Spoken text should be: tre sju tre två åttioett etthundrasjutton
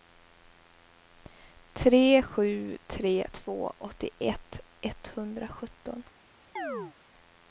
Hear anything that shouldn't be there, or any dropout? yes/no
yes